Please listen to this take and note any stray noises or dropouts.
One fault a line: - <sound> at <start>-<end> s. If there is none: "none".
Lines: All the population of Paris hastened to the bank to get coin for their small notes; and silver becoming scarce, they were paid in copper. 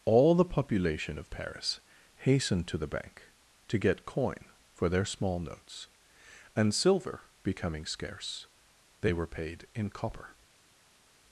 none